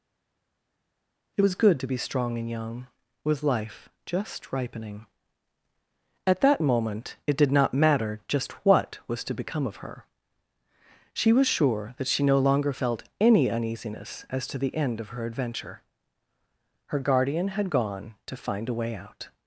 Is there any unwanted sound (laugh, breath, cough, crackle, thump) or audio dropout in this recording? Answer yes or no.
no